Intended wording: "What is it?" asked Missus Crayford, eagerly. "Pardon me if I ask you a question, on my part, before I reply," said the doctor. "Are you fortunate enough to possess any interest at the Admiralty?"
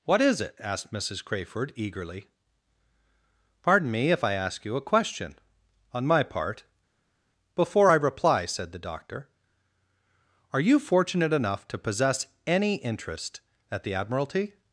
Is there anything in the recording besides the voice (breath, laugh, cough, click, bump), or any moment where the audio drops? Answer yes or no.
no